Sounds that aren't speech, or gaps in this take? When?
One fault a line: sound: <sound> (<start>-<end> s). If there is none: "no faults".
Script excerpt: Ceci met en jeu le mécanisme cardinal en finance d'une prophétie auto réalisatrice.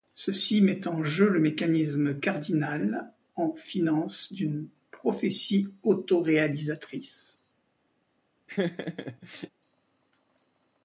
sound: laugh (8.5-9.5 s)